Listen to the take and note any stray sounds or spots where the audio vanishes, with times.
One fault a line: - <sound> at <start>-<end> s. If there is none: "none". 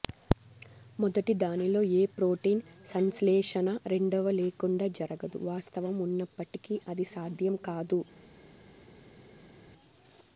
none